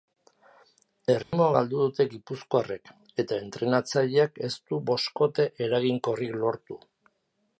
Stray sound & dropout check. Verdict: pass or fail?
fail